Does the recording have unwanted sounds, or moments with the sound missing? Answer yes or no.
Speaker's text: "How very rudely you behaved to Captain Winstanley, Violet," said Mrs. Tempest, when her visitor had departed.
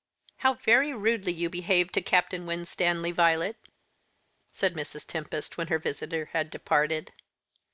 no